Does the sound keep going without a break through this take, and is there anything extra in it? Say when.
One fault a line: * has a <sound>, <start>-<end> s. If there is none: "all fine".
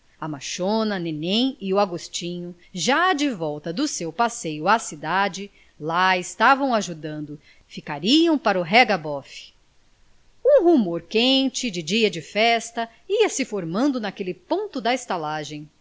all fine